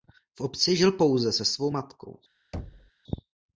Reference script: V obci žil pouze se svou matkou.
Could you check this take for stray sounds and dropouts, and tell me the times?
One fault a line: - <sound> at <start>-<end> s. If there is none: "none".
- thud at 2.5-2.9 s